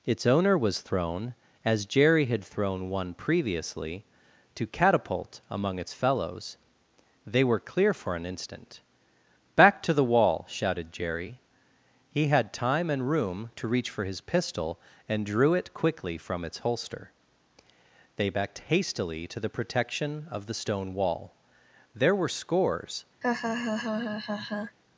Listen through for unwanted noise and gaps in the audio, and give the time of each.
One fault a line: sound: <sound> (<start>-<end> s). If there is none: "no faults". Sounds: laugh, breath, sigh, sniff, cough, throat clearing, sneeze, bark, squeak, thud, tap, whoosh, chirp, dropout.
sound: laugh (23.2-24.8 s)